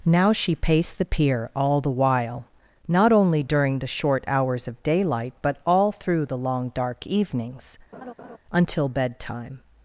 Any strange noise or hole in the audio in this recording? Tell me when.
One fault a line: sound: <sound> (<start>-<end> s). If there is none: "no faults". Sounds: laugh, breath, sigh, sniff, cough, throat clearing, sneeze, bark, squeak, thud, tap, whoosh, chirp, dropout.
sound: laugh (7.9-8.4 s)